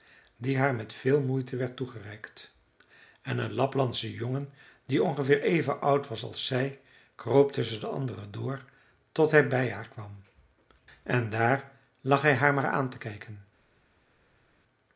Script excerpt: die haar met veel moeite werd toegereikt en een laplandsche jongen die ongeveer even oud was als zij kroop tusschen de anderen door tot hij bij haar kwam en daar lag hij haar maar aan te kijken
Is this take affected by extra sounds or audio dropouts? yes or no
no